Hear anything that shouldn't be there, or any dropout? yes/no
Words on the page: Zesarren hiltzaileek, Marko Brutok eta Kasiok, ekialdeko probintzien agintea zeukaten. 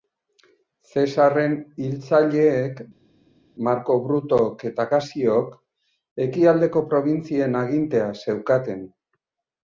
no